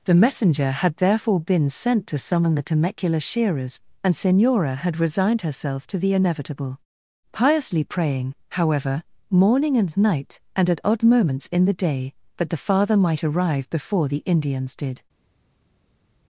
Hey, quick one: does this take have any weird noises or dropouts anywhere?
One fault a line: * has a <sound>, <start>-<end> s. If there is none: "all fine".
all fine